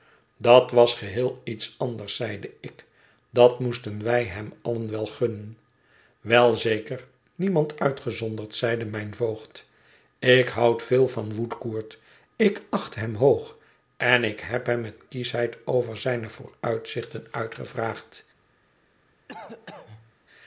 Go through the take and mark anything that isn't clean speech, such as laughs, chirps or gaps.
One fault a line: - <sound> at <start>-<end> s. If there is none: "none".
- cough at 19.3-20.1 s